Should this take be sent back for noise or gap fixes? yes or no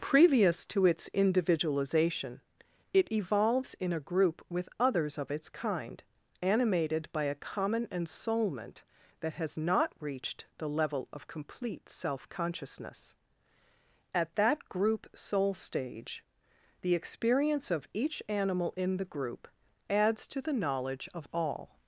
no